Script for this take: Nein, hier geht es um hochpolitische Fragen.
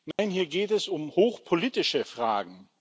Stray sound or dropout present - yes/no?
yes